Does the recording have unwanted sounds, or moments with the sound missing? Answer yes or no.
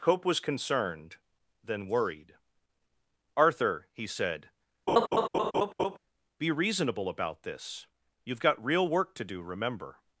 yes